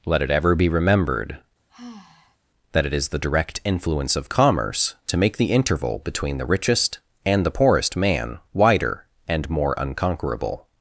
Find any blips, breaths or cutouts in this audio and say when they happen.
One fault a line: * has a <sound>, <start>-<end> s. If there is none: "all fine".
* has a sigh, 1.7-2.4 s